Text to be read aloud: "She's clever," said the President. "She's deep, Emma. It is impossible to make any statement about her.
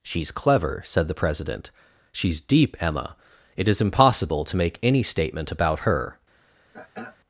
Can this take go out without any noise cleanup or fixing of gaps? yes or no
no